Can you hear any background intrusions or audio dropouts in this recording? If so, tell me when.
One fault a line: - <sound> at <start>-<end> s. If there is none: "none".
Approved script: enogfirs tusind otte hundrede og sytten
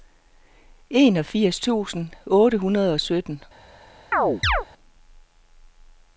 - chirp at 4.1-4.7 s